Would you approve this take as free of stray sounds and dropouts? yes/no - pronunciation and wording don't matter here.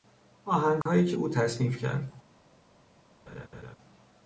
no